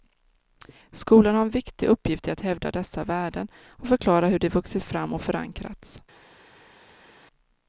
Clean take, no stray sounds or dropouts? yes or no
yes